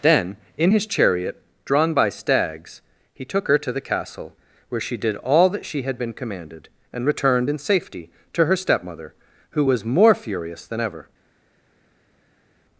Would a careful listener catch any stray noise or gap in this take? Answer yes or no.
no